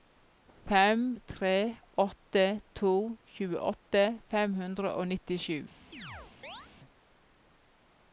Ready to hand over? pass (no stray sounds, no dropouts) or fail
fail